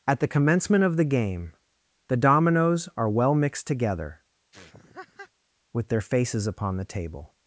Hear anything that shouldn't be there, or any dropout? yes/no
yes